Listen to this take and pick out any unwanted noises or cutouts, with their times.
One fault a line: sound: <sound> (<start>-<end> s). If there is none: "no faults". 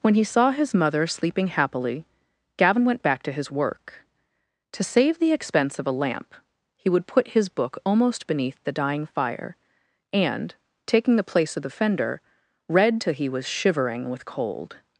no faults